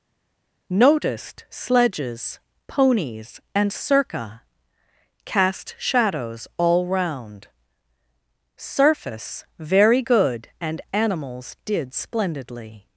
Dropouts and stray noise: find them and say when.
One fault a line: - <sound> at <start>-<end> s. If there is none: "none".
none